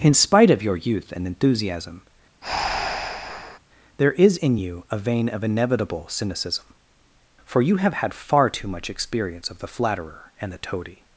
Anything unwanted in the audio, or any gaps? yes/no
yes